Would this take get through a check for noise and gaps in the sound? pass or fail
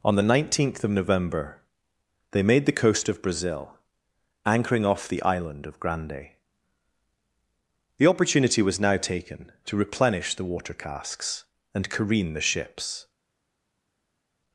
pass